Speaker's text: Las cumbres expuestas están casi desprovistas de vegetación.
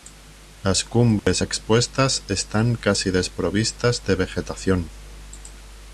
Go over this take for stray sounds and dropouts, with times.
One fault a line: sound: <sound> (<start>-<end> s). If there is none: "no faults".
sound: dropout (1.2-1.3 s)